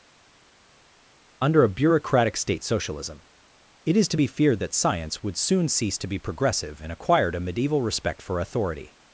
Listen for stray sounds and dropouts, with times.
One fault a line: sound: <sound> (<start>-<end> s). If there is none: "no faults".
no faults